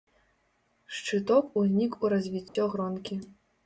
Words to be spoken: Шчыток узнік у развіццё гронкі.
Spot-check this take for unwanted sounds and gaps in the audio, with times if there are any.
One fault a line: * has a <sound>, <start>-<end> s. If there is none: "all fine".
* has a dropout, 2.5-2.6 s